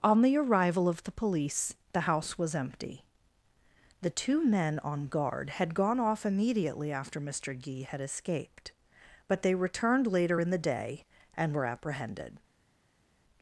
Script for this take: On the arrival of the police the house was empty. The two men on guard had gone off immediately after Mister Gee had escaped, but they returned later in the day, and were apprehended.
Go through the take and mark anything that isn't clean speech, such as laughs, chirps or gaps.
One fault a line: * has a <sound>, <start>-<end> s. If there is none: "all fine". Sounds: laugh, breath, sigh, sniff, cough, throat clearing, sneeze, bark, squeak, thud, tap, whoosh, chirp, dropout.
all fine